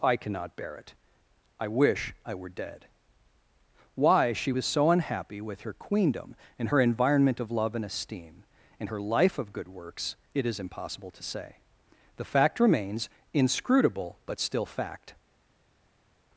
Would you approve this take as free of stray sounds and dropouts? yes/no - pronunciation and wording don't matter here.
yes